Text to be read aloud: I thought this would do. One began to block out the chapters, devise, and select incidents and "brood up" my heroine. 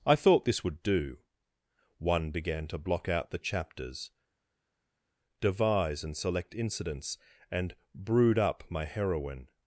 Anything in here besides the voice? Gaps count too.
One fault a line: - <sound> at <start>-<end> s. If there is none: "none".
none